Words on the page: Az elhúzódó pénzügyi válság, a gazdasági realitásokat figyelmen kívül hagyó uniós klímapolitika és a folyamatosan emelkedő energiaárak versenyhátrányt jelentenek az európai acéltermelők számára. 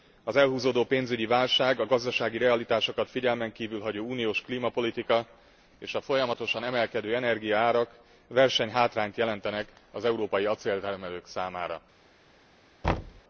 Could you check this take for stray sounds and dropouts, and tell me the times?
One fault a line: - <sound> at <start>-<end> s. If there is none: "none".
- thud at 12.8-13.2 s